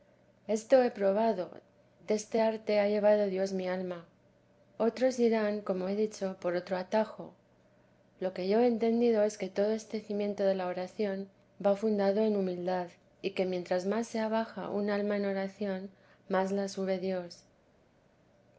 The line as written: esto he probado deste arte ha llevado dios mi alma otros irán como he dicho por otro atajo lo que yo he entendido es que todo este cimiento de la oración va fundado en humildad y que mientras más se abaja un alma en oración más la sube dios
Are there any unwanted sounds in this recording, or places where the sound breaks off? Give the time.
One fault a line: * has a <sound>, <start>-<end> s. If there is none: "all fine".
all fine